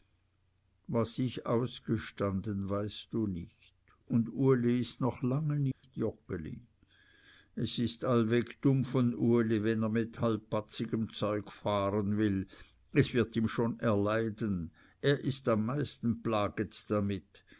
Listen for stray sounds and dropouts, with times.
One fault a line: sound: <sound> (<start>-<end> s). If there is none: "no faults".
sound: dropout (5.7-5.8 s)